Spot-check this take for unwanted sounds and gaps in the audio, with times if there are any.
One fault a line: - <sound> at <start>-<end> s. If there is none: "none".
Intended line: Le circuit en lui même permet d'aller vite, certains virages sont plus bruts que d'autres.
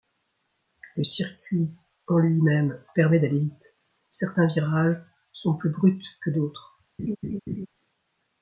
- laugh at 7.0-7.7 s